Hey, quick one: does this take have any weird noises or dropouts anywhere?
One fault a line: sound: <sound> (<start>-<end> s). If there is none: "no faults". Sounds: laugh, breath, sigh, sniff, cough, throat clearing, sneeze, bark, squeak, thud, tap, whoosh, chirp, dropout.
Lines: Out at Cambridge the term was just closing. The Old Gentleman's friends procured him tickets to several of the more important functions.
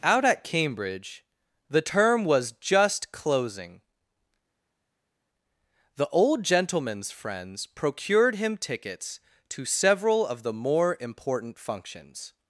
no faults